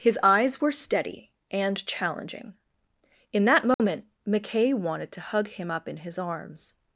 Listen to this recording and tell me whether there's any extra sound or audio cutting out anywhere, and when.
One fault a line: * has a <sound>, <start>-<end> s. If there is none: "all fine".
* has a dropout, 3.7-3.8 s